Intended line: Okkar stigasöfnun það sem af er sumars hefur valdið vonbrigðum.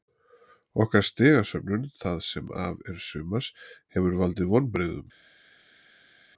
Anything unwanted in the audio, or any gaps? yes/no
no